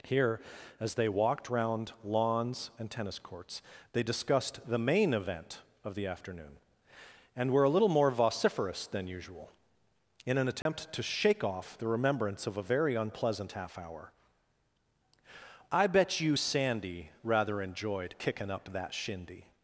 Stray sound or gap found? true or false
true